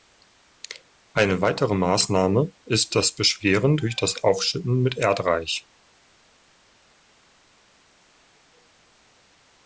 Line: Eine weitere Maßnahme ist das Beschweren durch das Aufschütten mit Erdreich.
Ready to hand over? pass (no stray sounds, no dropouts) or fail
pass